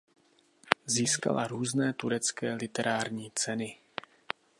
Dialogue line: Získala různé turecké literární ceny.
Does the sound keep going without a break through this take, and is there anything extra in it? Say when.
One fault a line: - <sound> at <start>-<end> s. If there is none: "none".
none